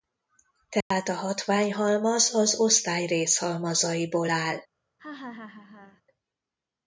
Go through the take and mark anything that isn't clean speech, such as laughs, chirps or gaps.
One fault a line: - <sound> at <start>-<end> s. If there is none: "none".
- dropout at 0.8-0.9 s
- laugh at 5.0-6.0 s